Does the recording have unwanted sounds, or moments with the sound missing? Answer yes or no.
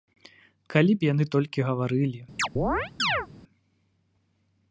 yes